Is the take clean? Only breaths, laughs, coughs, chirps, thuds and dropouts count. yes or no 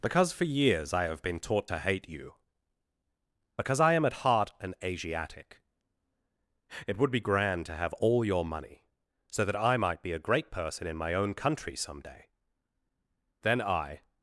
yes